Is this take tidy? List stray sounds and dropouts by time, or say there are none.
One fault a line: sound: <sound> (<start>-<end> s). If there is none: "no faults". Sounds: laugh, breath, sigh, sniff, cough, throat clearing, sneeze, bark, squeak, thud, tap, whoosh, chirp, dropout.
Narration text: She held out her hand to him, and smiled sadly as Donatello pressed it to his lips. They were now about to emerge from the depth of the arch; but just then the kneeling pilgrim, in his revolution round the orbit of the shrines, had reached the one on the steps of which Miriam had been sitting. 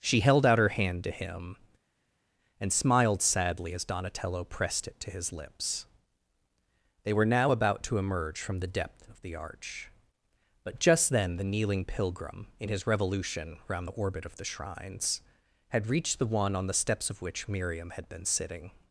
no faults